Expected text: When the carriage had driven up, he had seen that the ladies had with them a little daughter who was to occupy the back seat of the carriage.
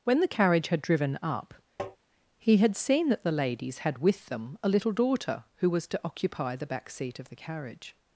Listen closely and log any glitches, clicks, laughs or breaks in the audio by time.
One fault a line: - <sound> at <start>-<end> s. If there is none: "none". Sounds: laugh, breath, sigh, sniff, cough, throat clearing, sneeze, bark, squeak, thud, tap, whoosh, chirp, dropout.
- tap at 1.8-2.0 s